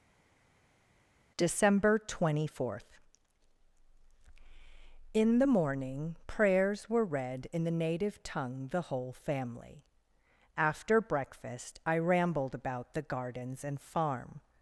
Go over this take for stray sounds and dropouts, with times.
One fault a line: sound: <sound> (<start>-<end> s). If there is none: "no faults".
no faults